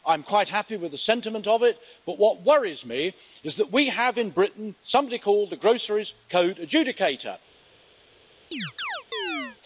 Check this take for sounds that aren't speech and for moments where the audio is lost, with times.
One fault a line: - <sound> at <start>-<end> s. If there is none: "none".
- chirp at 8.5-9.6 s